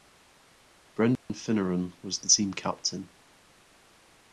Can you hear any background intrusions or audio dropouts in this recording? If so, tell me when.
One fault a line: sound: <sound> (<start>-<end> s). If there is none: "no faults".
sound: dropout (1.2-1.3 s)